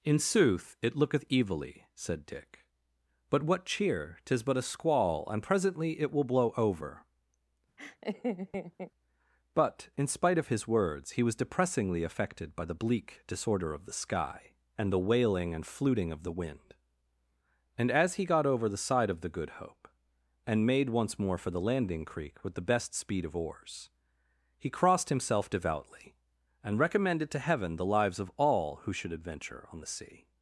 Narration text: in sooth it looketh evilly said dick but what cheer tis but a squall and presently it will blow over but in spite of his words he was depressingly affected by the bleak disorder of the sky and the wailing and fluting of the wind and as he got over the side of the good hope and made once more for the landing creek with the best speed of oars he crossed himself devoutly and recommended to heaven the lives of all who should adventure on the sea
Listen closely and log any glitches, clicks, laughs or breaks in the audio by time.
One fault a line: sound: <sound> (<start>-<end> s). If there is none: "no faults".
sound: laugh (7.8-8.9 s)